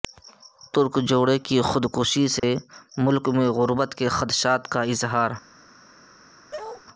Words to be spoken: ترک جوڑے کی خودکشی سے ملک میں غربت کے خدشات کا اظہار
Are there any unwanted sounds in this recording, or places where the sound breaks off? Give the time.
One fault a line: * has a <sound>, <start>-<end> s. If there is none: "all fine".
* has a dropout, 2.4-2.4 s
* has a bark, 6.5-6.8 s